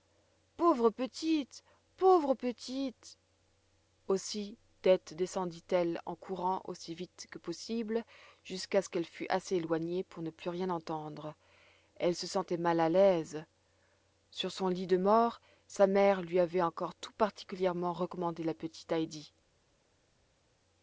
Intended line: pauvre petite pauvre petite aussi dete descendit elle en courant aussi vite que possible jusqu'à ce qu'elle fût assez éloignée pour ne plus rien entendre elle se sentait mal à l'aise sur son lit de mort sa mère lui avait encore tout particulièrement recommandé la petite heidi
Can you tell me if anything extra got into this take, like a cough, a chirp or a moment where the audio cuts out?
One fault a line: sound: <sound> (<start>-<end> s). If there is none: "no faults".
no faults